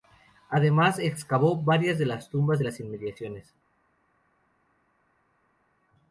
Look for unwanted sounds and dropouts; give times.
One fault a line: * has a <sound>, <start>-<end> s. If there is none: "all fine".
all fine